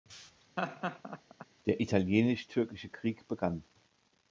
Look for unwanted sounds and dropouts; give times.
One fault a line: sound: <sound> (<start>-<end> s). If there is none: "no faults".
sound: laugh (0.6-1.5 s)